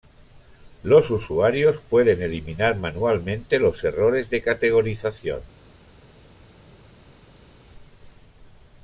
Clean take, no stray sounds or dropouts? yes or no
yes